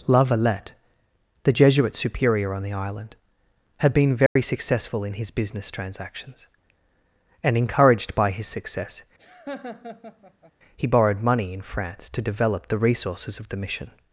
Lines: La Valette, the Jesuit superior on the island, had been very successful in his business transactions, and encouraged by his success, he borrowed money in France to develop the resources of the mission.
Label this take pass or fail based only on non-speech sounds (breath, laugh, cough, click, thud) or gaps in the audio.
fail